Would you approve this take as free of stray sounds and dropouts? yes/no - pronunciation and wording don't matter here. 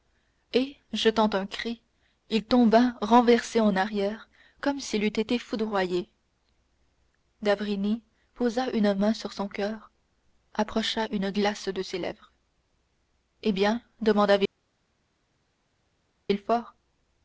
yes